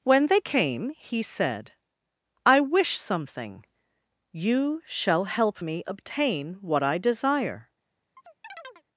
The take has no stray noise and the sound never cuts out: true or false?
false